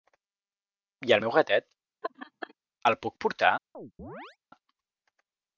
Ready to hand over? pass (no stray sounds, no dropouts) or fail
fail